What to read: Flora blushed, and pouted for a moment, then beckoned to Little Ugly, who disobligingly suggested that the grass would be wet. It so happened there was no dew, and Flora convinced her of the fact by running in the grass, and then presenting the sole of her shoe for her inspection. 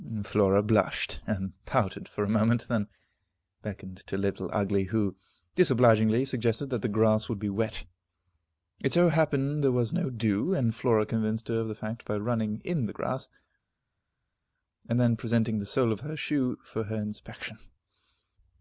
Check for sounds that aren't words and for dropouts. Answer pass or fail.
pass